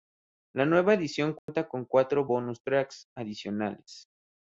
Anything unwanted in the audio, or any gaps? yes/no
yes